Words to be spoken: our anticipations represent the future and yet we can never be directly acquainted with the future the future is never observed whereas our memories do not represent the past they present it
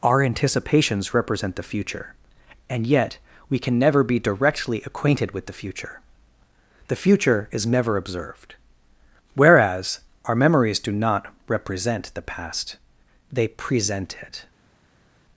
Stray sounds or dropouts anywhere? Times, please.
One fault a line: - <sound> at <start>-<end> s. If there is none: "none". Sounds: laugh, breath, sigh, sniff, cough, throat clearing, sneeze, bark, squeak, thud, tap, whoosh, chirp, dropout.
none